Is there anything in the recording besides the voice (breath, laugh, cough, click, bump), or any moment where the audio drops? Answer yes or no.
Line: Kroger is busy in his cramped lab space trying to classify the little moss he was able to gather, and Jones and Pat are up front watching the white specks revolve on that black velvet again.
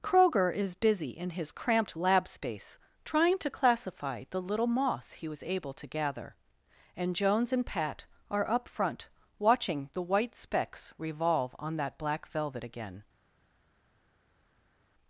no